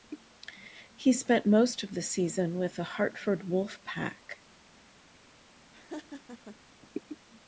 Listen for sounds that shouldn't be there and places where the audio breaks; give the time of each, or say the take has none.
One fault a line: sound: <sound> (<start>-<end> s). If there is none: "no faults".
sound: laugh (5.7-6.6 s)